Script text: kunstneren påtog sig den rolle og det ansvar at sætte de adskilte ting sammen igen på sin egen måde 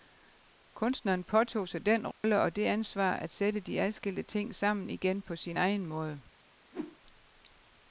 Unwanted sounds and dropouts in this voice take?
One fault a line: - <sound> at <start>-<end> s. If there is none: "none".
- dropout at 2.1-2.2 s
- whoosh at 6.7-7.0 s